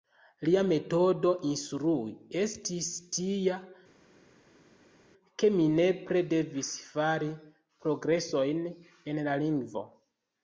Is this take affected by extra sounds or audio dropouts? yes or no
no